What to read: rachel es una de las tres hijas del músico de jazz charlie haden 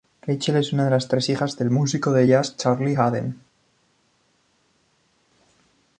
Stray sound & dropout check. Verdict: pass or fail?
pass